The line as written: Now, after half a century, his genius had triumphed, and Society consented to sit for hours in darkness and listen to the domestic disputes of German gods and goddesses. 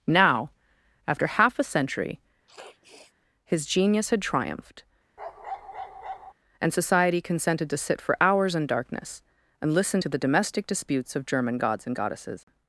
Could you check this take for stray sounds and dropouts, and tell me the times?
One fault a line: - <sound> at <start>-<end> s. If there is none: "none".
- sniff at 2.5-3.1 s
- bark at 5.2-6.3 s